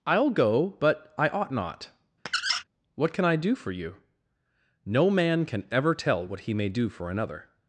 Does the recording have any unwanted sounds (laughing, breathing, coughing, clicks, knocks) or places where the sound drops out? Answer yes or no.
yes